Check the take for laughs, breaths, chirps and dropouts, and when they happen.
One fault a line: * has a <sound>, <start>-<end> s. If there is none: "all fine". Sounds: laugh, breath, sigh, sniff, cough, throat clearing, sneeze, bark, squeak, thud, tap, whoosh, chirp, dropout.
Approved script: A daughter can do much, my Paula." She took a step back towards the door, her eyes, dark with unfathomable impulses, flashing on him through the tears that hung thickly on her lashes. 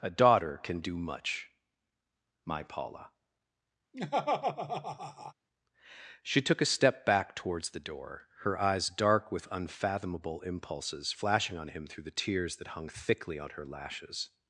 * has a laugh, 3.9-5.3 s